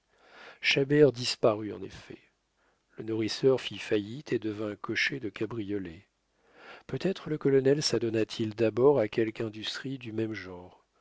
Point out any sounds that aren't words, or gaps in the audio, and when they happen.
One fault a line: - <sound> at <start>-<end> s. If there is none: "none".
none